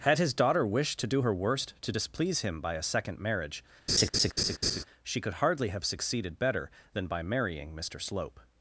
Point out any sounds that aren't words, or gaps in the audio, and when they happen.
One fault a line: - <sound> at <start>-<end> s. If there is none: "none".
- laugh at 3.9-4.8 s